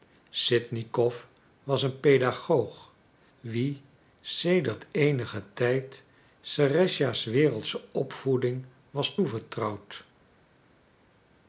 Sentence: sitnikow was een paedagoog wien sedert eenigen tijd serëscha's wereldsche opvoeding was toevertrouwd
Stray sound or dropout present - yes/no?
no